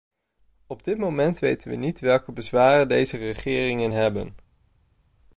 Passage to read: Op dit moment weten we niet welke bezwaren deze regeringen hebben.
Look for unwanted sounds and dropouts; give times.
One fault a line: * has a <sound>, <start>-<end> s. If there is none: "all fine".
all fine